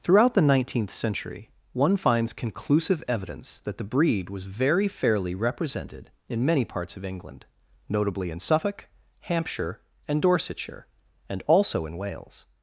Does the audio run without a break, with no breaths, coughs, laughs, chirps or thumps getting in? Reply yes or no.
yes